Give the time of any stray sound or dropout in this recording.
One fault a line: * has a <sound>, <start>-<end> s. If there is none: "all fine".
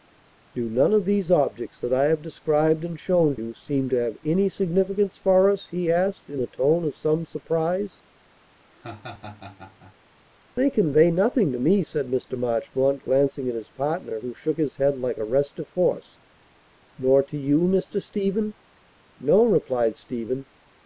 * has a laugh, 8.7-10.0 s